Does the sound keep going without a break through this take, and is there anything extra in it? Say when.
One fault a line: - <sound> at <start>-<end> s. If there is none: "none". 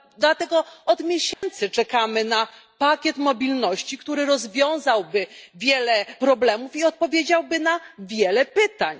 - dropout at 1.3-1.4 s